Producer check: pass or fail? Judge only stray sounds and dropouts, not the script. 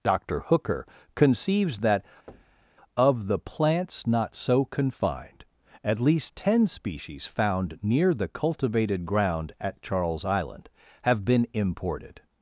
fail